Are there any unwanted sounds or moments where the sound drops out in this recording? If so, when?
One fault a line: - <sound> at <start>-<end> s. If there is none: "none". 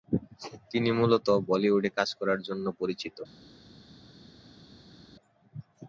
none